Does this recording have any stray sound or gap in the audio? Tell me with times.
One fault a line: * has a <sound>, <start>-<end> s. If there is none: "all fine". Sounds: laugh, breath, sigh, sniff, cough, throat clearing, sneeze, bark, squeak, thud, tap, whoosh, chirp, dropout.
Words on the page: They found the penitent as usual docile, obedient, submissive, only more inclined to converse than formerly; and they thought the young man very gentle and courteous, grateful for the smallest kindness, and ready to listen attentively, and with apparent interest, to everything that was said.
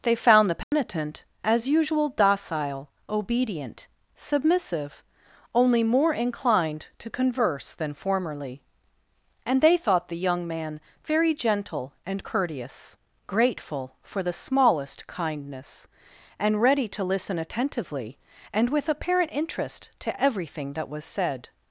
* has a dropout, 0.6-0.7 s